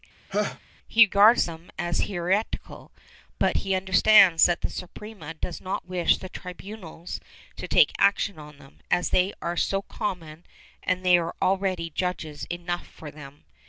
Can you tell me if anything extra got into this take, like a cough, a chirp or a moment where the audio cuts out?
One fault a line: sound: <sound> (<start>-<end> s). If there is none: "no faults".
sound: laugh (0.3-0.6 s)